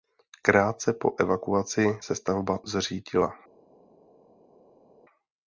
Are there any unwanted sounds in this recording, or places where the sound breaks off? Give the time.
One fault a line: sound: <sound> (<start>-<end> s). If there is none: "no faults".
no faults